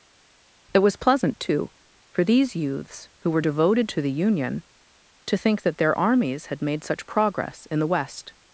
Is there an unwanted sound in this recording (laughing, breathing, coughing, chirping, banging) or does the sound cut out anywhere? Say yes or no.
no